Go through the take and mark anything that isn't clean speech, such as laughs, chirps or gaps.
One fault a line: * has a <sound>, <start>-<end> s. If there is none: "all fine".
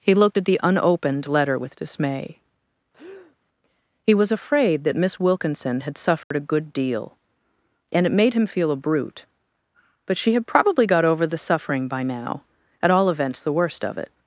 * has a breath, 2.9-3.4 s
* has a dropout, 6.2-6.3 s